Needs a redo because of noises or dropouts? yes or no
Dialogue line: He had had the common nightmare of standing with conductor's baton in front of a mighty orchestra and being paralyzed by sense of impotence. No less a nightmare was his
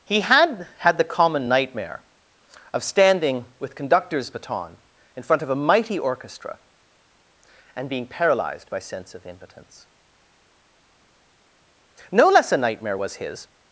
no